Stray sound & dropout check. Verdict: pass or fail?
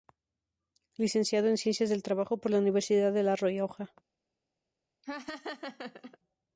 fail